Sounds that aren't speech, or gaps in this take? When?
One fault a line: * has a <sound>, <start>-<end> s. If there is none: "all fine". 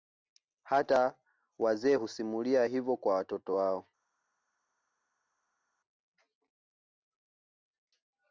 all fine